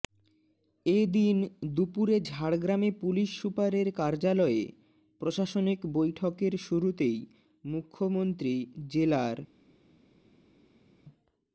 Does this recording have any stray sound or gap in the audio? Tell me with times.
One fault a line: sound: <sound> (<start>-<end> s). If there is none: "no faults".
no faults